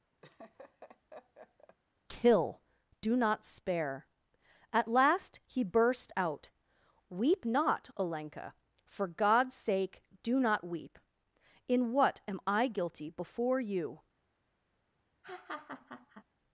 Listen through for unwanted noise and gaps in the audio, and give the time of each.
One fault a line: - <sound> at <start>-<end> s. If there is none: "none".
- laugh at 0.2-1.8 s
- laugh at 15.2-16.2 s